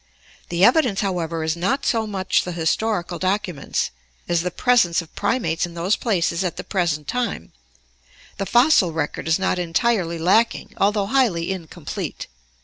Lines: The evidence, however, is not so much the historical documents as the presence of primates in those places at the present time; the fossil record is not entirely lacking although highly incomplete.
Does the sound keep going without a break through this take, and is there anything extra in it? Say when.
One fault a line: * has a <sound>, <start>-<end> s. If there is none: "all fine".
all fine